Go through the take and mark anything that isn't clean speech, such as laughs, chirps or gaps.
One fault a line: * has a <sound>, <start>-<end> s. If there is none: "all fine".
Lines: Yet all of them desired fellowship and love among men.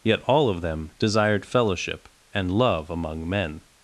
all fine